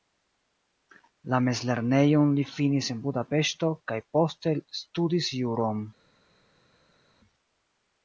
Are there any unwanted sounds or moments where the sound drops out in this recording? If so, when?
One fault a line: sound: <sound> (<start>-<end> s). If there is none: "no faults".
no faults